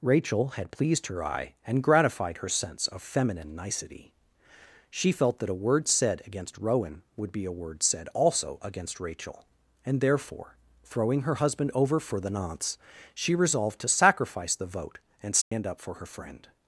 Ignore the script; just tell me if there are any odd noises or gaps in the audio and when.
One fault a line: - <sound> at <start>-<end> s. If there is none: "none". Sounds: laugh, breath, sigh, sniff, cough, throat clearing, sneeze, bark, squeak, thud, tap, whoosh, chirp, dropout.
- dropout at 15.4-15.5 s